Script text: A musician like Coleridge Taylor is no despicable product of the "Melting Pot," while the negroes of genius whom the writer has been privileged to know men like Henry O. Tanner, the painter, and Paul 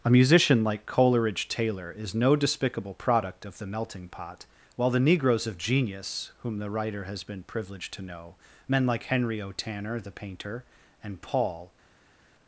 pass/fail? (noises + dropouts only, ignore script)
pass